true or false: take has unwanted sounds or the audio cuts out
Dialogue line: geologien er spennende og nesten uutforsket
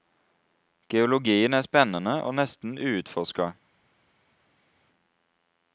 false